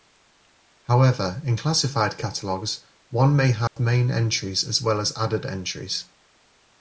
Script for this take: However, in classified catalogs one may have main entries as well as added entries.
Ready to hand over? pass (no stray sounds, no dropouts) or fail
fail